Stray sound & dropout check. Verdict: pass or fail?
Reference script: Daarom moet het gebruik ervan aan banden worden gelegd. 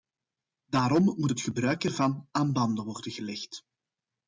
pass